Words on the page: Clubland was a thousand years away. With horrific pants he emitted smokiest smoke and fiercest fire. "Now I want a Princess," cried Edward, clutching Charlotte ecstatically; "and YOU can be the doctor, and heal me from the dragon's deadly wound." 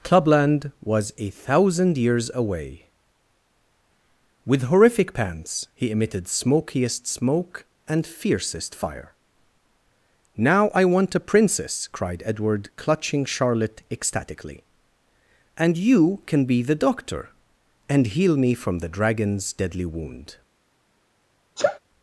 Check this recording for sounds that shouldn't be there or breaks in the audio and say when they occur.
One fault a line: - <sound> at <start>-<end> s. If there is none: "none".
- sneeze at 21.6-21.8 s